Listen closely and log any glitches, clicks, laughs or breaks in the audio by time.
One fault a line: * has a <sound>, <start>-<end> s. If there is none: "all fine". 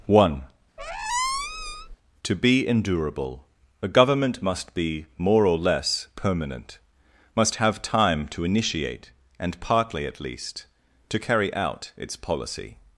* has a squeak, 0.8-2.0 s